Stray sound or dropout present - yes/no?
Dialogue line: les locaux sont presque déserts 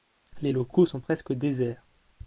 no